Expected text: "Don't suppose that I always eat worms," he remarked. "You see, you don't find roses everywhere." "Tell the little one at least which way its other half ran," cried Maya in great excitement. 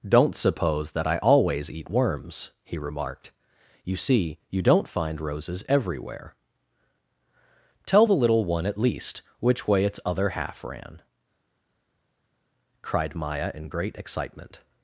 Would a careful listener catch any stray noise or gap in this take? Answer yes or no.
no